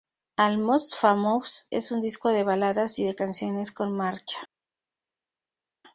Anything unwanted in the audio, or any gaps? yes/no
no